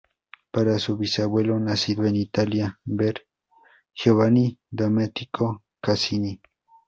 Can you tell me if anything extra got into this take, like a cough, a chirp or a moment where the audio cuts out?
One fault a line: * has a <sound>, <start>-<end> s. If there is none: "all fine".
all fine